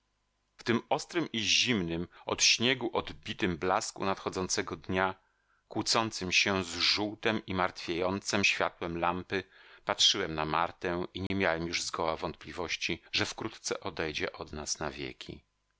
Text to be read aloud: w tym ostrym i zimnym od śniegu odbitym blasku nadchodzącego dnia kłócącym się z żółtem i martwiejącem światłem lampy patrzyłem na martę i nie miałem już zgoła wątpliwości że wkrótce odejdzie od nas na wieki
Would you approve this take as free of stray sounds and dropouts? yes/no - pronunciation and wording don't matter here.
no